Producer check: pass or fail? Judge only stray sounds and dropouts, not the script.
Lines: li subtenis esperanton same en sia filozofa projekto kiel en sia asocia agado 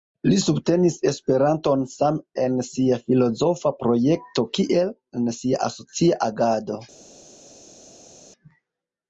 pass